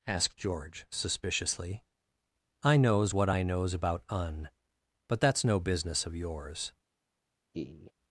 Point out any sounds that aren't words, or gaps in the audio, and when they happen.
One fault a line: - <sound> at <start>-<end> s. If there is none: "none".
- laugh at 7.5-7.9 s